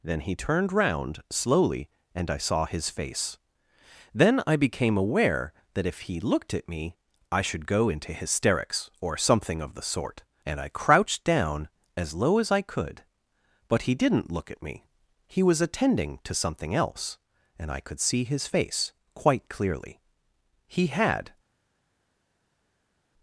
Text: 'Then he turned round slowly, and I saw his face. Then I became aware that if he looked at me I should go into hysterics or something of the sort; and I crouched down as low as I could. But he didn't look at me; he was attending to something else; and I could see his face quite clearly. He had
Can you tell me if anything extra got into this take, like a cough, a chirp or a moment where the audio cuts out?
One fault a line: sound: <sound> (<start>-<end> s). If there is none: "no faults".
no faults